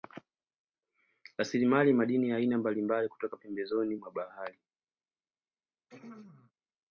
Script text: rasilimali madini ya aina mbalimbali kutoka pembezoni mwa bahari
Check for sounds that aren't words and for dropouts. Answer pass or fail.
fail